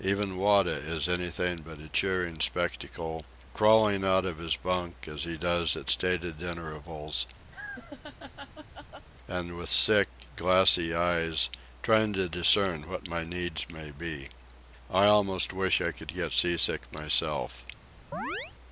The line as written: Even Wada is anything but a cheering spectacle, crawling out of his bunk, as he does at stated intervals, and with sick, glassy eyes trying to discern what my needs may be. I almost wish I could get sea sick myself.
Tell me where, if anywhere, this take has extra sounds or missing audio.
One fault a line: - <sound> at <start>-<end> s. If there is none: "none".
- laugh at 7.5-9.1 s
- chirp at 18.1-18.5 s